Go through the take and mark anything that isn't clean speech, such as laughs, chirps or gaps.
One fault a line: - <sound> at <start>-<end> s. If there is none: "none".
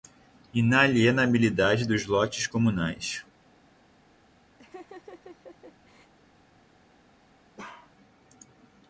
- laugh at 4.6-6.1 s
- bark at 7.6-7.9 s